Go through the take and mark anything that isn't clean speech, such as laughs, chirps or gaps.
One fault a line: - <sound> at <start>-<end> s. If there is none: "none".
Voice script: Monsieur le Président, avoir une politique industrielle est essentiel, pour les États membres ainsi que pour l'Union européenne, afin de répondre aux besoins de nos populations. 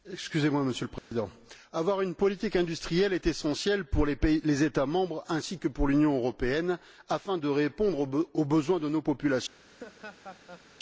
- dropout at 1.0-1.1 s
- laugh at 9.7-10.7 s